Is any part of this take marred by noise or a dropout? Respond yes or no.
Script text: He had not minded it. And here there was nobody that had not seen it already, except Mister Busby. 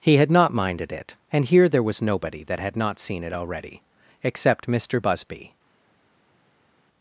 no